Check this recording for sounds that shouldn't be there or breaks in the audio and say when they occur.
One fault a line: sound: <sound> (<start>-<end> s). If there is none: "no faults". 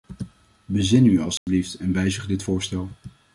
sound: dropout (1.4-1.5 s)